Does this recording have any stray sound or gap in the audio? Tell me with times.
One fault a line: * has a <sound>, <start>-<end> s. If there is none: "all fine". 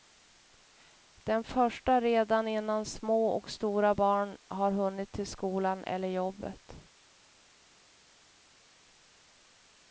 all fine